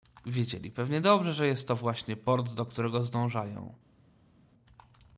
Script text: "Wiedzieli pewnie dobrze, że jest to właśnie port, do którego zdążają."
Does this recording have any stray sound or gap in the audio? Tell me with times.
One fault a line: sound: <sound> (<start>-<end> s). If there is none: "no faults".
no faults